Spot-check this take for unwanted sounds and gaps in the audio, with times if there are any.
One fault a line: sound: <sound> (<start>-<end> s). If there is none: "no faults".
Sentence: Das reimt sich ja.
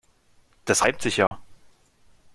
sound: dropout (1.3-1.3 s)